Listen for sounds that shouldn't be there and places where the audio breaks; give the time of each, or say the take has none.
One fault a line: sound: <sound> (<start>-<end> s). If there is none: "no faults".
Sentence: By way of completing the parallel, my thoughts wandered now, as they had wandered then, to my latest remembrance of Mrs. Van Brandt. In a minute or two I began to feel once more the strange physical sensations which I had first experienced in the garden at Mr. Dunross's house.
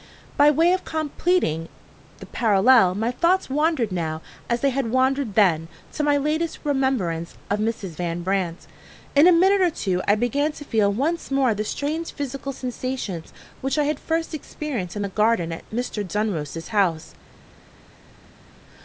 no faults